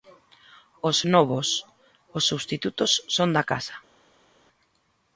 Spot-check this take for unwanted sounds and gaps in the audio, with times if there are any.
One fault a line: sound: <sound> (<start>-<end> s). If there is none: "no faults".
no faults